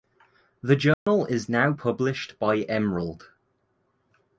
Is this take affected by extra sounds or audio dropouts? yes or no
yes